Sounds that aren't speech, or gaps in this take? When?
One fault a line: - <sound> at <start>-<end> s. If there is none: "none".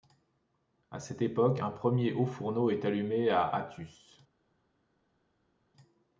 none